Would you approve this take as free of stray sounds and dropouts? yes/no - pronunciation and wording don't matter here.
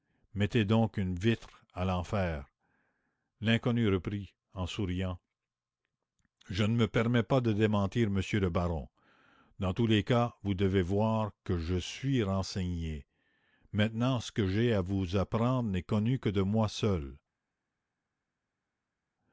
yes